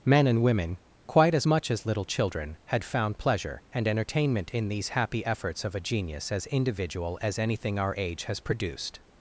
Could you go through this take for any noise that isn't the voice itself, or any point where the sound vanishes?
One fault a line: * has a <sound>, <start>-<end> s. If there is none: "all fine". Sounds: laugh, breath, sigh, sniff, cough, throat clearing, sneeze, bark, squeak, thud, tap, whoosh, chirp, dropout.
all fine